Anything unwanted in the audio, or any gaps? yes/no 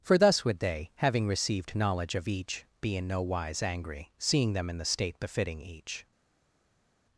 no